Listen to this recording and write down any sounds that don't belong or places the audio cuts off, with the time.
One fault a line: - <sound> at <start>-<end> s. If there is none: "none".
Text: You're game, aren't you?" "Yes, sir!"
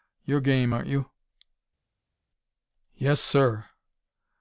none